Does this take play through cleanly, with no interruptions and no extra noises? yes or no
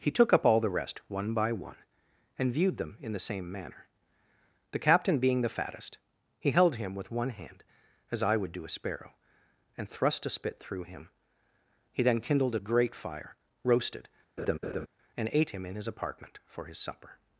no